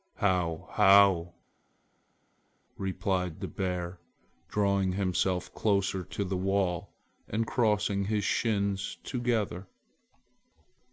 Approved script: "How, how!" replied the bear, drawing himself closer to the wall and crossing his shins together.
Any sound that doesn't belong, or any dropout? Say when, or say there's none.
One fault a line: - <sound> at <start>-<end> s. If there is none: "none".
none